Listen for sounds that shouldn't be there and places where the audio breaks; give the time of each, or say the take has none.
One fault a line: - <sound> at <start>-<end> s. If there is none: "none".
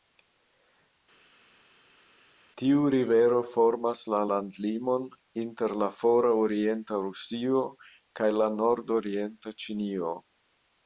none